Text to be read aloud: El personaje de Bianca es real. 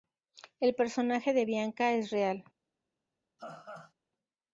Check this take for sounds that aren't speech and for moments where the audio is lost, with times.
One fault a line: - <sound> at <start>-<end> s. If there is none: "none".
- laugh at 3.4-3.9 s